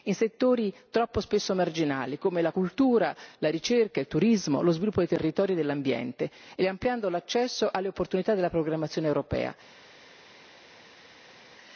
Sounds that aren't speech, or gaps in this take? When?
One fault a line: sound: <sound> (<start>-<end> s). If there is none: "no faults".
no faults